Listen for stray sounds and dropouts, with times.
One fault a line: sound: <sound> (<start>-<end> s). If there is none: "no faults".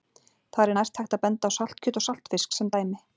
no faults